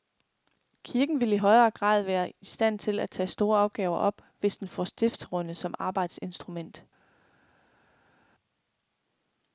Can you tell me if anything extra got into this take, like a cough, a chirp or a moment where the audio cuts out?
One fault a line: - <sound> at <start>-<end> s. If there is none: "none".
none